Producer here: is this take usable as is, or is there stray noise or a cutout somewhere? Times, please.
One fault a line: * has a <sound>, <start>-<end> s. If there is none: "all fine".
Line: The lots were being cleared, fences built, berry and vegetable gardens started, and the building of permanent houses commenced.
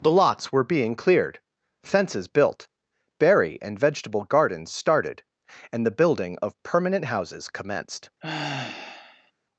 * has a sigh, 8.2-9.3 s